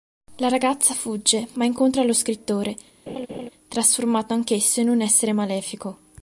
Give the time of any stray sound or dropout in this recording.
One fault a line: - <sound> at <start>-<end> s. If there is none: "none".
- laugh at 3.1-3.5 s